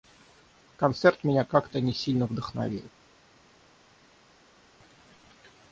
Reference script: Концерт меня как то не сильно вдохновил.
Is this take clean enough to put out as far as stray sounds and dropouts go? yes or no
yes